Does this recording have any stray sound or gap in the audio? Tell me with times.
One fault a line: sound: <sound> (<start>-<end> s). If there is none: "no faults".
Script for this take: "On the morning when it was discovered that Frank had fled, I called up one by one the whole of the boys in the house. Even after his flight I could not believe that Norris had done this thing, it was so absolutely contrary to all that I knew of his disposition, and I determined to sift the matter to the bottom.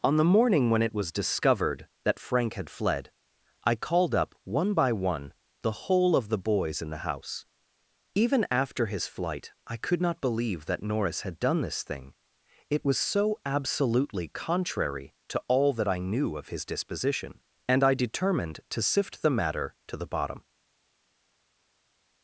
no faults